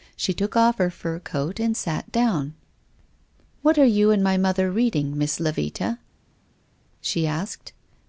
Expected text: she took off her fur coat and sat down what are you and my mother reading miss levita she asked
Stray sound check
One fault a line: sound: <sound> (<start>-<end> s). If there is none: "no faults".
no faults